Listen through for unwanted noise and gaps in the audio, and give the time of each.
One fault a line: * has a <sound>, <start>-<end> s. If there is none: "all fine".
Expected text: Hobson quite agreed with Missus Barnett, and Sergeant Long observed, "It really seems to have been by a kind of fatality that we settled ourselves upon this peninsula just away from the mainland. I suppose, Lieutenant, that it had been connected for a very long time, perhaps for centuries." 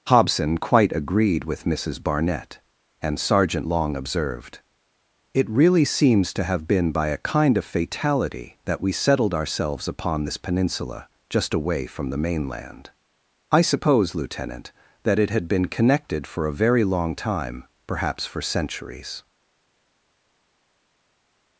all fine